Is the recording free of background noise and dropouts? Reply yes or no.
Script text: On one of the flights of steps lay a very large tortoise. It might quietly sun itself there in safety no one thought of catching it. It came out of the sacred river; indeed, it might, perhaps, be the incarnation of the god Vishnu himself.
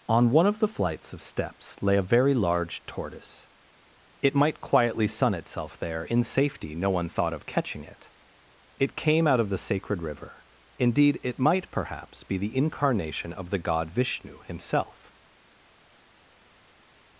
yes